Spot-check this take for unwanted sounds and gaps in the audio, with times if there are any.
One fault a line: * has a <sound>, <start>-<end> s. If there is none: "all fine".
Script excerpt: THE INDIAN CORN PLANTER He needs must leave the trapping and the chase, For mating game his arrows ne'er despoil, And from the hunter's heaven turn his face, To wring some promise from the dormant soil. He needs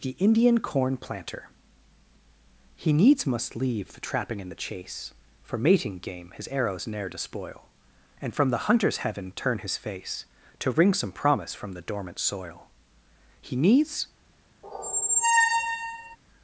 * has a squeak, 14.6-16.2 s